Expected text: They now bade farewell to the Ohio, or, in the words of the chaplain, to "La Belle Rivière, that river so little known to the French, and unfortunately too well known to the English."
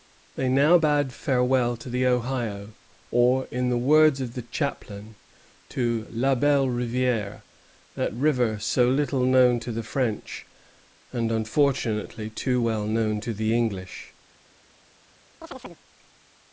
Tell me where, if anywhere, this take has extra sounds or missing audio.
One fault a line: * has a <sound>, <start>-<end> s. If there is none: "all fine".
* has a chirp, 15.4-15.8 s